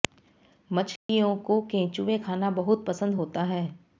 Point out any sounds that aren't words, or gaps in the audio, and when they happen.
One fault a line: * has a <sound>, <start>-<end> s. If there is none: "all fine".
* has a dropout, 1.0-1.1 s